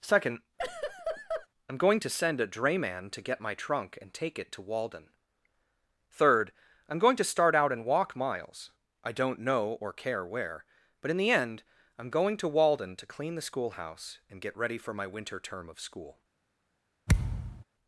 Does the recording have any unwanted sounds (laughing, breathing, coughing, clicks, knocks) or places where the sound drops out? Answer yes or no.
yes